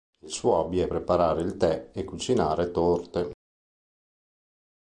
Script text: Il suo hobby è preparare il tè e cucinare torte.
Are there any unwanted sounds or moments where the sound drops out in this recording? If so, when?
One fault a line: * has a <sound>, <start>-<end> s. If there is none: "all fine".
all fine